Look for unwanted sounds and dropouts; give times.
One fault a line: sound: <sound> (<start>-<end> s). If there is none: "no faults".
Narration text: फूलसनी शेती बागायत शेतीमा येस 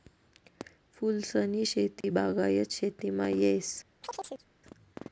sound: dropout (2.0-2.0 s)
sound: chirp (4.0-4.5 s)